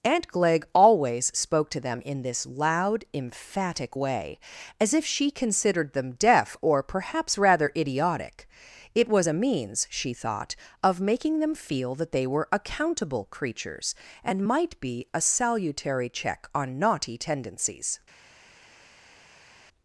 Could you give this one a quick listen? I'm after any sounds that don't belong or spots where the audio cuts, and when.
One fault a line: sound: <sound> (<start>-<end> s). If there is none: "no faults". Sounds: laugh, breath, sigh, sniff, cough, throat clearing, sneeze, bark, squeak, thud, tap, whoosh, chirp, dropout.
no faults